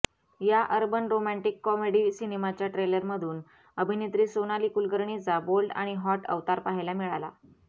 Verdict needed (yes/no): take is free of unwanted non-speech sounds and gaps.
yes